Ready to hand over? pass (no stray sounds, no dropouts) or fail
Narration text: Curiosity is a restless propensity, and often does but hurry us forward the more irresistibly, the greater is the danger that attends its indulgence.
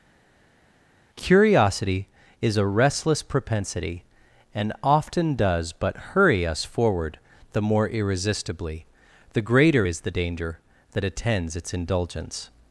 pass